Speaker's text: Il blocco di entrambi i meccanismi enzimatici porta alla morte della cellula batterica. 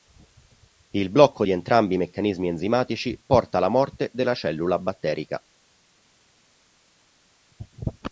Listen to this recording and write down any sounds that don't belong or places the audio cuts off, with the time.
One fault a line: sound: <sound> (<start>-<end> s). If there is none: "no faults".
no faults